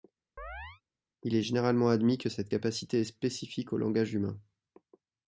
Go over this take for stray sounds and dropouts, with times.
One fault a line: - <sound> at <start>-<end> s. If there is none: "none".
- chirp at 0.4-0.8 s